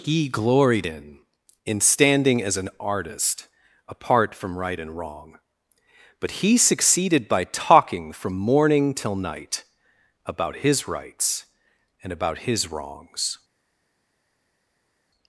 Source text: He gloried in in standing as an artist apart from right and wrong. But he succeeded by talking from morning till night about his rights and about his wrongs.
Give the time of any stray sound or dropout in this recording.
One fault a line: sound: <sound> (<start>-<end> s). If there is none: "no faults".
no faults